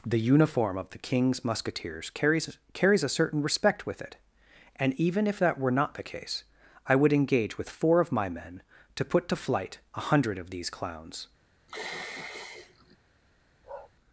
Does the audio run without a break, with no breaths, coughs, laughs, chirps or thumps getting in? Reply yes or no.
no